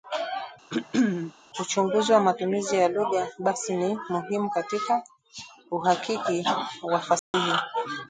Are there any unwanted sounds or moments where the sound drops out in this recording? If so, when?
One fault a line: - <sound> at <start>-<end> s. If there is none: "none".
- throat clearing at 0.7-1.3 s
- dropout at 7.2-7.3 s